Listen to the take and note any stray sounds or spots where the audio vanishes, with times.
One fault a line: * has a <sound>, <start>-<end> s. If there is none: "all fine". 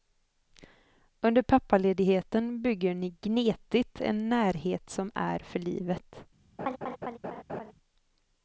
* has a laugh, 6.6-7.7 s